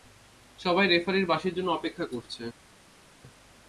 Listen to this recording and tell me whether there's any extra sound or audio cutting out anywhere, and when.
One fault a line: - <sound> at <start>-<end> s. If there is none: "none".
none